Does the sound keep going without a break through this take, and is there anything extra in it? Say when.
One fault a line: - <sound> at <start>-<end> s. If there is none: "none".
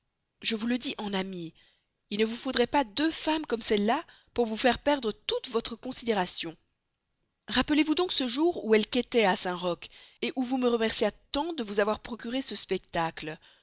none